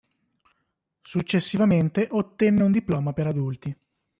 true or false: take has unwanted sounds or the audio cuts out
false